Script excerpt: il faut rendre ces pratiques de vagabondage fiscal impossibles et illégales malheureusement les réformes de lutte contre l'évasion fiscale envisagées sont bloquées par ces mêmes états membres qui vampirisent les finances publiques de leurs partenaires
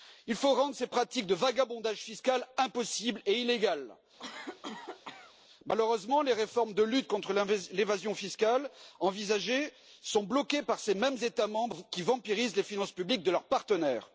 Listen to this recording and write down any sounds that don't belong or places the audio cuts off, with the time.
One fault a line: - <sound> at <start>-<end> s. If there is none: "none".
- cough at 4.2-5.4 s